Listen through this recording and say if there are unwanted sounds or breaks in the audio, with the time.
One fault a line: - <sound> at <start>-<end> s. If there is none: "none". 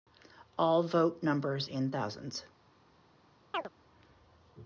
- chirp at 3.5-3.7 s